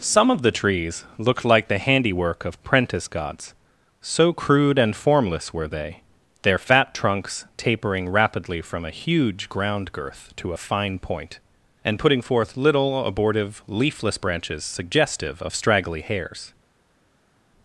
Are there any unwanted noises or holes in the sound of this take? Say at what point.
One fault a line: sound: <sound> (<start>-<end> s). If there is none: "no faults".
no faults